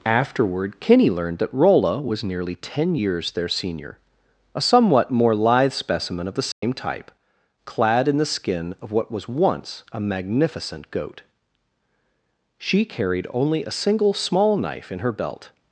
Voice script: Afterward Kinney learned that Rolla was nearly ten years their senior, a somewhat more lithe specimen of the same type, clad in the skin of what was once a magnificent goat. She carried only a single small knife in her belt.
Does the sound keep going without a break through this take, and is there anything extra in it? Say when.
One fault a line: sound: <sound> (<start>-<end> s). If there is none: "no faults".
sound: dropout (6.5-6.6 s)